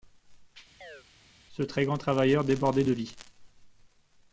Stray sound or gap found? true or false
true